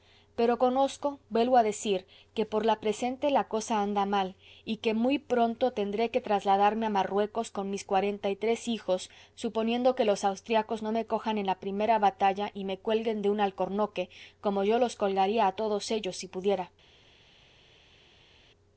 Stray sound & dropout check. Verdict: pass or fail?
pass